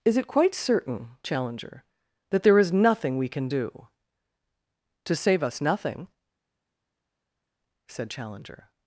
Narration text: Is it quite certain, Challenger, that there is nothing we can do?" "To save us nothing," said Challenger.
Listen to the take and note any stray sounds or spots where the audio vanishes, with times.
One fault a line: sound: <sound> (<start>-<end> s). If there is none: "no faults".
no faults